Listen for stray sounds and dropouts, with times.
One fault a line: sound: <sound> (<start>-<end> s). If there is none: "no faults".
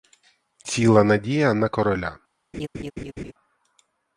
sound: laugh (2.5-3.3 s)